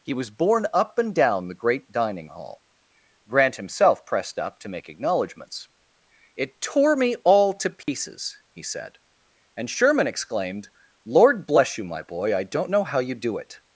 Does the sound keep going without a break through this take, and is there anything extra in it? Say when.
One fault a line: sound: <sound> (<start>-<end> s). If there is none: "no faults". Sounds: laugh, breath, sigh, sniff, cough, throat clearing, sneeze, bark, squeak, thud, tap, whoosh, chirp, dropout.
sound: dropout (7.8-7.9 s)